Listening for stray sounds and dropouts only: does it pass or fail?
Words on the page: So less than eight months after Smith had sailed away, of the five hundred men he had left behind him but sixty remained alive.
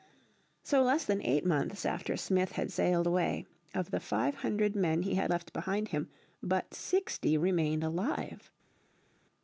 pass